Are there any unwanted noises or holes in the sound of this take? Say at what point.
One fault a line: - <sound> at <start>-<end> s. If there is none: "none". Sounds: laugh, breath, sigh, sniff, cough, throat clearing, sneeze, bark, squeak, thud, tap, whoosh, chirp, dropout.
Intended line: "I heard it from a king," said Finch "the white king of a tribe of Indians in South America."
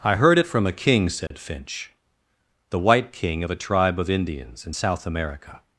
- dropout at 1.3-1.3 s